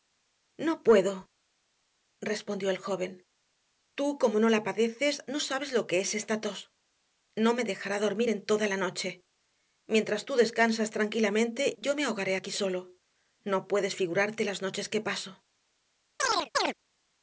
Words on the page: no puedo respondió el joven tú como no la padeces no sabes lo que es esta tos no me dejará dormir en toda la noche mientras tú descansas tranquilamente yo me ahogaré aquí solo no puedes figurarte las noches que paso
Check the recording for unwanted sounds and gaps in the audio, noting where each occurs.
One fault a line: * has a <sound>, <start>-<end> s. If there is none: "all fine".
* has a chirp, 16.2-16.7 s